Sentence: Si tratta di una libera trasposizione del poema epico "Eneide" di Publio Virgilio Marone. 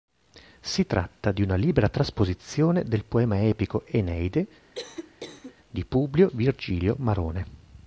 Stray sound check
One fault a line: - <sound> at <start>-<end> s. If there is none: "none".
- cough at 4.7-5.5 s